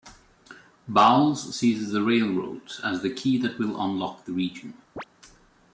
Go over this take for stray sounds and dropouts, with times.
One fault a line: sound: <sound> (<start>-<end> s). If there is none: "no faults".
sound: chirp (5.0-5.0 s)